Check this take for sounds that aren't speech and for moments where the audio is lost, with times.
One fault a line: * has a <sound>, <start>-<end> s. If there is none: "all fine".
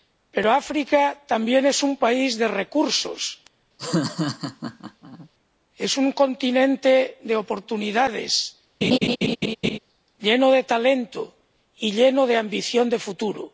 * has a laugh, 3.8-5.3 s
* has a laugh, 8.8-9.8 s